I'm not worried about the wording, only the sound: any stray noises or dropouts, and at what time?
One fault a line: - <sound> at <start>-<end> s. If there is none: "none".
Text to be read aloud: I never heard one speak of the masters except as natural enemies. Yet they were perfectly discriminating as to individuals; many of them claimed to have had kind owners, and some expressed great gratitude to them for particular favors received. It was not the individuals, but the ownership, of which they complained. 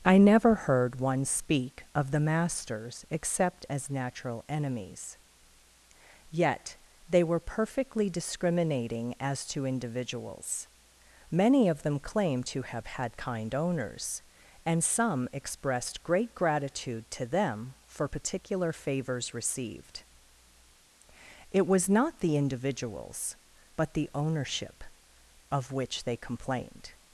none